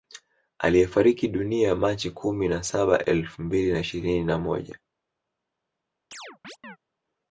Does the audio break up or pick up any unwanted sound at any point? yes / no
yes